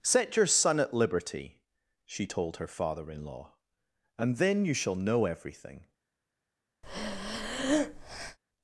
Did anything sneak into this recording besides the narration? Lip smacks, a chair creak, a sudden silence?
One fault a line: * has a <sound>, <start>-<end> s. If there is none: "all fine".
* has a breath, 6.8-8.4 s